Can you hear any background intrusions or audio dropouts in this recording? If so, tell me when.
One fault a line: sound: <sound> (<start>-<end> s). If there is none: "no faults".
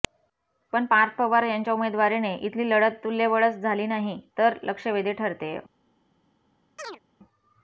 sound: chirp (6.8-7.0 s)